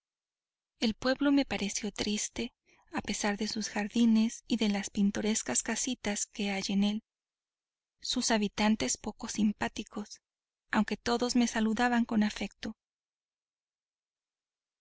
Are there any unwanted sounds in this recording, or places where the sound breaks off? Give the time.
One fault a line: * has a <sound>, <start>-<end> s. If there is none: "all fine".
all fine